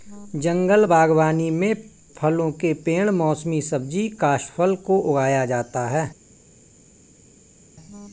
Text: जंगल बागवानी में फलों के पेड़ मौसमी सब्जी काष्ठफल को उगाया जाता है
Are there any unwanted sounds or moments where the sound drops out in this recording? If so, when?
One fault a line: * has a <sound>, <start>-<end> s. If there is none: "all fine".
all fine